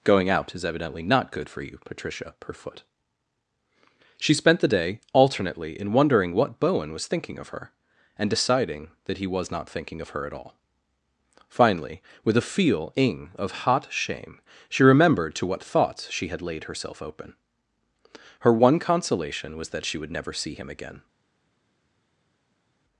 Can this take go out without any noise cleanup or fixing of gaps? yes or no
yes